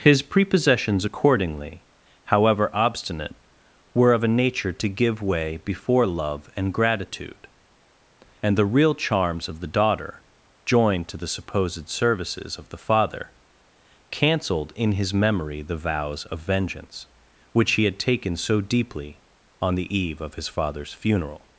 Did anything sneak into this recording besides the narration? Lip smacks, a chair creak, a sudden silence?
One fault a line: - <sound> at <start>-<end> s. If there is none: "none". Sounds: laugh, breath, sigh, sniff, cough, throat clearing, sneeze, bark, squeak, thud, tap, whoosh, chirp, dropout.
none